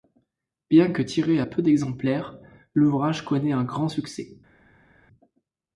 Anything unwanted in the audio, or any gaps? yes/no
no